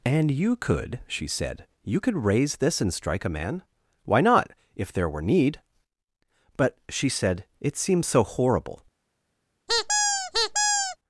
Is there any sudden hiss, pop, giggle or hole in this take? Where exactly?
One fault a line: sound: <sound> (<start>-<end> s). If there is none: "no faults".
sound: squeak (9.7-11.0 s)